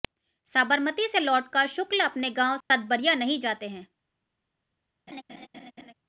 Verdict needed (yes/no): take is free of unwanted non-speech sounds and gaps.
no